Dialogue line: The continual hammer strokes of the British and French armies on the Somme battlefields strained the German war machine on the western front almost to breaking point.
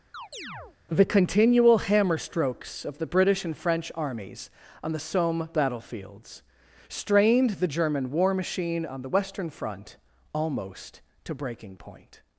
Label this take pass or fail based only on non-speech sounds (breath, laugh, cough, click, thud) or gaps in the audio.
fail